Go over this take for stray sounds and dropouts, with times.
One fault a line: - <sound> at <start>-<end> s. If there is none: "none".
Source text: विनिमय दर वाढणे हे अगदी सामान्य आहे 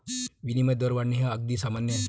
none